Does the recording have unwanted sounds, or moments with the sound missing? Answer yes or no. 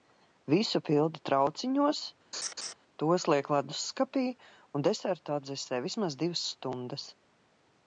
yes